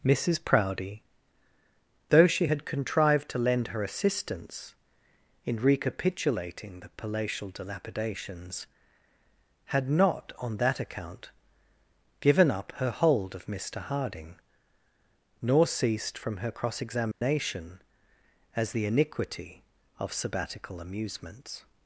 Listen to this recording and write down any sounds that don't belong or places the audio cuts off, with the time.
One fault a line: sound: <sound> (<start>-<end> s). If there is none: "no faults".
sound: dropout (17.1-17.2 s)